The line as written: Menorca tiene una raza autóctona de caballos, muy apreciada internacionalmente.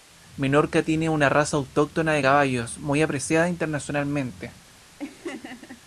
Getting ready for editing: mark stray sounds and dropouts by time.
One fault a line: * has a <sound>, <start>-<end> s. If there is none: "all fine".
* has a laugh, 5.0-5.8 s